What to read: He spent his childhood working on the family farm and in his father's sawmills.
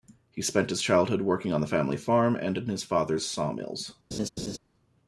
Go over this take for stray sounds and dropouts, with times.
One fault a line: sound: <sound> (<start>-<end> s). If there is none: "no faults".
sound: laugh (4.1-4.6 s)